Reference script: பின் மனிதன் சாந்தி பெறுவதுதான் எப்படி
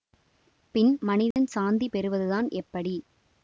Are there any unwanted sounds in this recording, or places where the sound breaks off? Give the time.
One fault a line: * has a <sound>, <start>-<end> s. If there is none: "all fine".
* has a dropout, 1.3-1.4 s